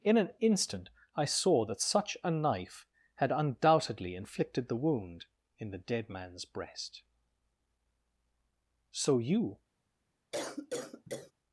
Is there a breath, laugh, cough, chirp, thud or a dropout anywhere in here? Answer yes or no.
yes